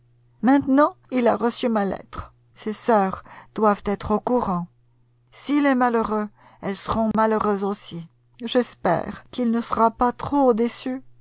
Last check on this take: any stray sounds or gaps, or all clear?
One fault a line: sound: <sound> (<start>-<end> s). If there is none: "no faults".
sound: dropout (7.1-7.1 s)